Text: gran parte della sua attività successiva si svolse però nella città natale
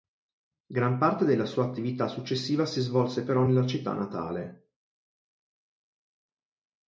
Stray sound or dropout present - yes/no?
no